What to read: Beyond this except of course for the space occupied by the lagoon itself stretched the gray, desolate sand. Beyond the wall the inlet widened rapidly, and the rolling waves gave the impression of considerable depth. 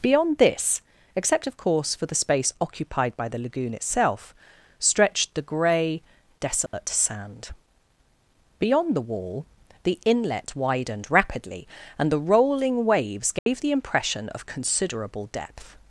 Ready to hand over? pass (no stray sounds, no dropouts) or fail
fail